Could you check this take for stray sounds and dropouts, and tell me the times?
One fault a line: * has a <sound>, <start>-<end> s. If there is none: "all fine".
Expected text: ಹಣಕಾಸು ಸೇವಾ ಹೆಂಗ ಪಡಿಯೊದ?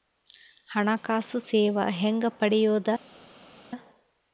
all fine